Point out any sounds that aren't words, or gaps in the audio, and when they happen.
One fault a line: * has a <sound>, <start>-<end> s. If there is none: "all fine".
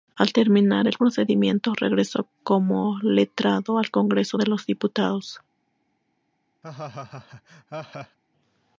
* has a laugh, 6.6-8.2 s